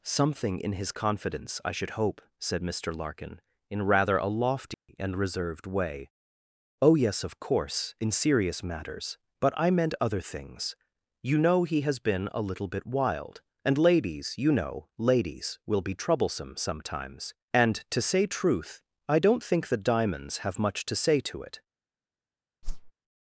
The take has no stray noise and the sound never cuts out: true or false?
false